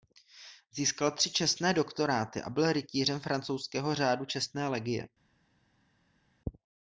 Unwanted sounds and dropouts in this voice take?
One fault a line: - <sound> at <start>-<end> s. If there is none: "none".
none